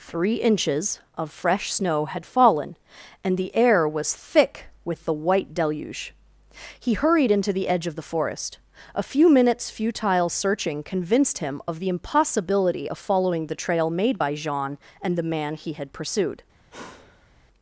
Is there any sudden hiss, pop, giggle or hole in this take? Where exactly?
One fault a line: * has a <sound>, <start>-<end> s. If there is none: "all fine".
* has a sigh, 16.7-17.3 s